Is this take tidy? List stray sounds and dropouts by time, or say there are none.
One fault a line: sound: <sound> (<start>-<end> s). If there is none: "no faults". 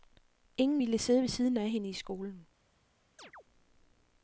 sound: chirp (3.2-3.4 s)